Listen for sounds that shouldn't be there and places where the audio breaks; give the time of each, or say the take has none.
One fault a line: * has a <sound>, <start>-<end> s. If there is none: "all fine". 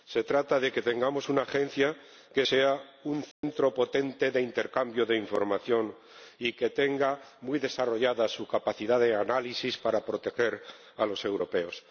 * has a dropout, 3.3-3.4 s